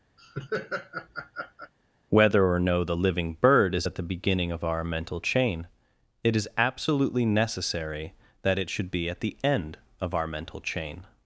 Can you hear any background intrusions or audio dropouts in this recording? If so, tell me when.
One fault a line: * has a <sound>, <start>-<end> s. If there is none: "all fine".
* has a laugh, 0.2-1.7 s